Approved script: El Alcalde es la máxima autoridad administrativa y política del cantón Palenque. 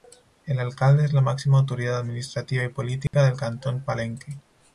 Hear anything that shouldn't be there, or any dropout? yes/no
yes